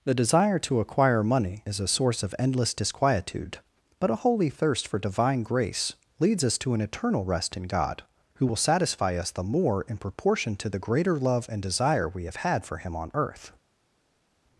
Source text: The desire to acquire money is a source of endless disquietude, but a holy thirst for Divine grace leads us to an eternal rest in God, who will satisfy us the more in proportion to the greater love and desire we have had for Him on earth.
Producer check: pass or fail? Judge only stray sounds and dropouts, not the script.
pass